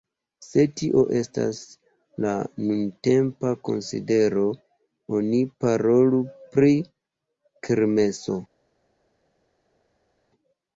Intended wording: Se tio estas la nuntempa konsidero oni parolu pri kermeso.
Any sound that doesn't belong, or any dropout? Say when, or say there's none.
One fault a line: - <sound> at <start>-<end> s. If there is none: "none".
none